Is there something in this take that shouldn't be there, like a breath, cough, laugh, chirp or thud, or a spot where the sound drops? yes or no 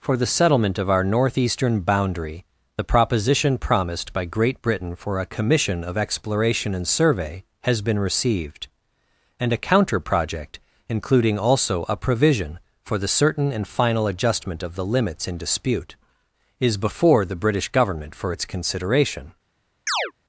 yes